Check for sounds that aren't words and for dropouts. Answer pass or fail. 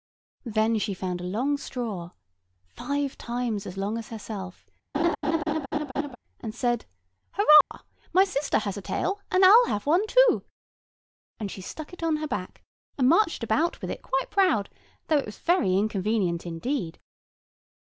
fail